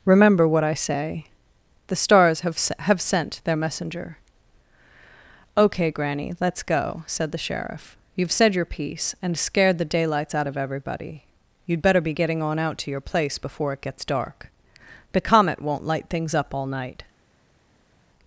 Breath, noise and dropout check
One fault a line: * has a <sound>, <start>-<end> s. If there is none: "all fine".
all fine